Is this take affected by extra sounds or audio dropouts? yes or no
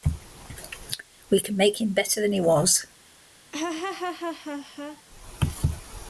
yes